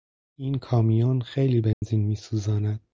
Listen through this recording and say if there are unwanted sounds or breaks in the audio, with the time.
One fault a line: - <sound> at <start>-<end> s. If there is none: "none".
- dropout at 1.7-1.8 s